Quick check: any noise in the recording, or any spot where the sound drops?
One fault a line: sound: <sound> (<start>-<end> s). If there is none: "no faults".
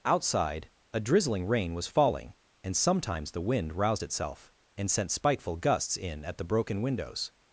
no faults